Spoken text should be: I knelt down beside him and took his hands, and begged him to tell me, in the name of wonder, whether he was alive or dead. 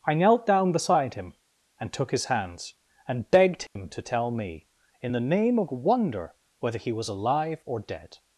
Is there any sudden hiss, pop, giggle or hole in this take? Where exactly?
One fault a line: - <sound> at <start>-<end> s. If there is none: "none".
- dropout at 3.7-3.8 s